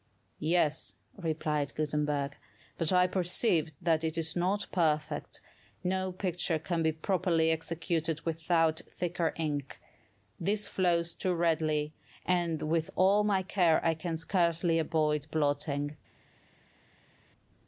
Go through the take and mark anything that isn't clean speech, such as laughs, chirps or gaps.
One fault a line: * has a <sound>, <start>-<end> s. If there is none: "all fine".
all fine